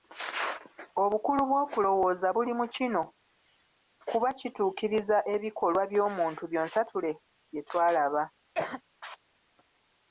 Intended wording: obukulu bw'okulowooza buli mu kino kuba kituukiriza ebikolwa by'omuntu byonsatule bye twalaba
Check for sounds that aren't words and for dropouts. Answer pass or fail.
fail